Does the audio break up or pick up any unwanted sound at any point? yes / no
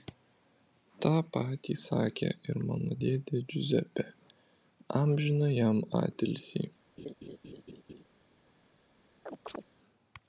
yes